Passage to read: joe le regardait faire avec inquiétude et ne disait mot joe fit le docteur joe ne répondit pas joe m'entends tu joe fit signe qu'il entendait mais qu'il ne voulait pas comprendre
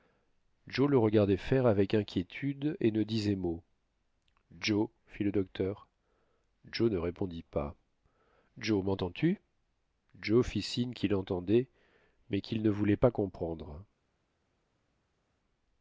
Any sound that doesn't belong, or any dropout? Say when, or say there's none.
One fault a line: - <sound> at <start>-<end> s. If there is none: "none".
none